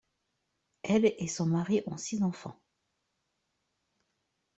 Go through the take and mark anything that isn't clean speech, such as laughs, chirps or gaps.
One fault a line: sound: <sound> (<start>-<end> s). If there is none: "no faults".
no faults